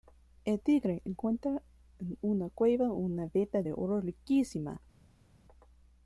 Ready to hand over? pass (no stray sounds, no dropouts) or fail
pass